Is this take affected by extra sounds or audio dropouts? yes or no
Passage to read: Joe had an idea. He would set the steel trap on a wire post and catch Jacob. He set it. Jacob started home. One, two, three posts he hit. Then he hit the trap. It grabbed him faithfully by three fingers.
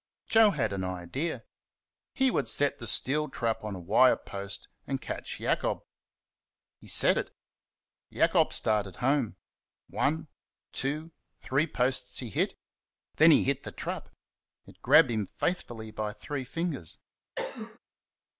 yes